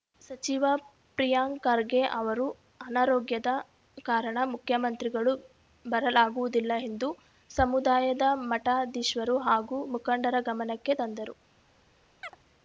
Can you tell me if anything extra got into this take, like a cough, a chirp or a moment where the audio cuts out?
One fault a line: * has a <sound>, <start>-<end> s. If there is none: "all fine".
* has a chirp, 12.2-12.4 s